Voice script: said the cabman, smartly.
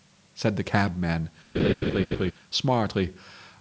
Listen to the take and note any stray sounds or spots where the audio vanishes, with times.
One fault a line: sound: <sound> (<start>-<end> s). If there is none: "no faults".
sound: laugh (1.5-2.3 s)